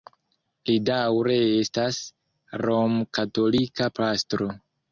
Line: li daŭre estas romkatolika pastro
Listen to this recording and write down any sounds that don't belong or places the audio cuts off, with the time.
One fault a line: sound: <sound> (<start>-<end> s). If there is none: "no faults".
no faults